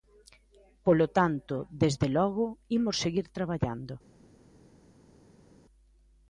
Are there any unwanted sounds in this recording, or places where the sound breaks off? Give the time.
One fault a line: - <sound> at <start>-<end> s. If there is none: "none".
none